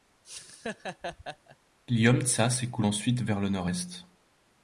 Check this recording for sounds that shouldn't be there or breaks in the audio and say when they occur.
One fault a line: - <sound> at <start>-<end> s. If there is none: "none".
- laugh at 0.2-1.6 s